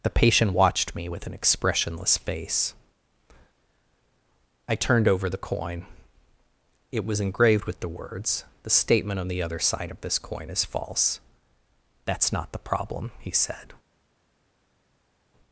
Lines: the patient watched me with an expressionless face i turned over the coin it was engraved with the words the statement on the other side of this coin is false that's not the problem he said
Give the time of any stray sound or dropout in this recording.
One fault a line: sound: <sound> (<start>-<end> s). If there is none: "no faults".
no faults